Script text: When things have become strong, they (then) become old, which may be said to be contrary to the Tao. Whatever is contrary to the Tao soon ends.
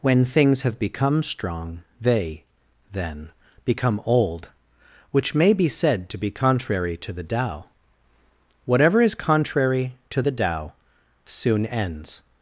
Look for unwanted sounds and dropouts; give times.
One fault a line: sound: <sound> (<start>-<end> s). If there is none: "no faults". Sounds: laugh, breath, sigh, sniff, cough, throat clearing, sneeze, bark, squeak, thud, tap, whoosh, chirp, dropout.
no faults